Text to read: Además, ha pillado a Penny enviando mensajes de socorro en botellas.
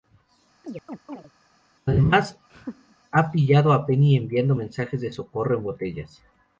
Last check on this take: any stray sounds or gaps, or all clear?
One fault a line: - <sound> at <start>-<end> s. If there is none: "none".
- chirp at 0.6-1.3 s
- laugh at 2.5-3.0 s